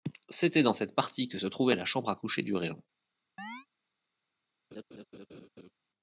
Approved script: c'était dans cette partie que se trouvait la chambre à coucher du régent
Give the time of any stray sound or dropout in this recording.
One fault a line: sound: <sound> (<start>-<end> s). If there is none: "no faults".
sound: chirp (3.4-3.7 s)
sound: laugh (4.7-5.7 s)